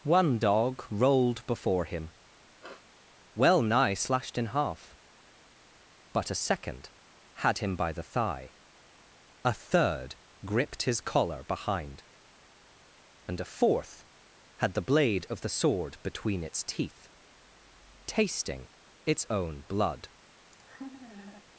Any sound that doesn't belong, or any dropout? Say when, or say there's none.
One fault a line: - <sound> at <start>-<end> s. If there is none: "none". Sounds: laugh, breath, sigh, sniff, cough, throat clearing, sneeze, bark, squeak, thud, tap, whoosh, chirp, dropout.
- sniff at 2.6-2.9 s
- laugh at 20.5-21.4 s